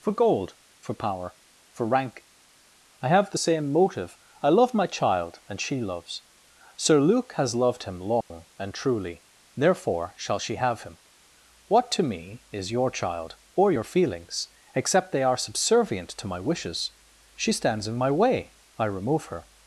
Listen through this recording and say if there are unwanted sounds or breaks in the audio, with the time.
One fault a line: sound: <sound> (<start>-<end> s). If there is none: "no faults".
sound: dropout (8.2-8.3 s)